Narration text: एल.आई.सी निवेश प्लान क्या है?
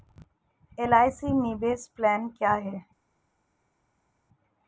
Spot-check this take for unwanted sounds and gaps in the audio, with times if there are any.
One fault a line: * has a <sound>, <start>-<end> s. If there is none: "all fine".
all fine